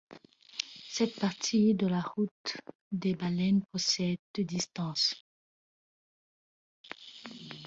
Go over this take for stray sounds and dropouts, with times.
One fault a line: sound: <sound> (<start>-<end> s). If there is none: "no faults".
no faults